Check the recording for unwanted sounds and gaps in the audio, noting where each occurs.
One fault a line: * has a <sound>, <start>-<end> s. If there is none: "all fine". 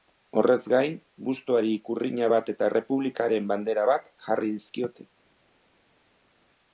all fine